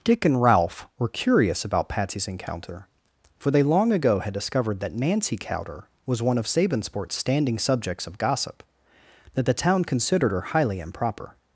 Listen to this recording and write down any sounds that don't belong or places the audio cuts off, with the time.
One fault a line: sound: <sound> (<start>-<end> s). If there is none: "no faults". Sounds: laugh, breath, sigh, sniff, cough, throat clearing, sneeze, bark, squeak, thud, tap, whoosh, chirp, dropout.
no faults